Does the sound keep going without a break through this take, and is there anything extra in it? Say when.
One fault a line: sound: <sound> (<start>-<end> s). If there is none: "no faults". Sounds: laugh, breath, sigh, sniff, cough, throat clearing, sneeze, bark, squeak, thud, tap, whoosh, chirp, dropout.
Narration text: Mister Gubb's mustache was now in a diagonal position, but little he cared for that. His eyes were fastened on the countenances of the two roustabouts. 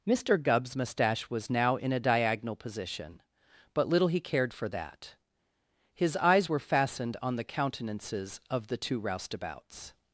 no faults